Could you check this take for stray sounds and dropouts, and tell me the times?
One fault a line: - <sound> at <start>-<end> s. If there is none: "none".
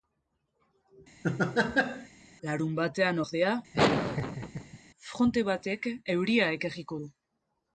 - laugh at 1.2-2.1 s
- laugh at 3.7-4.8 s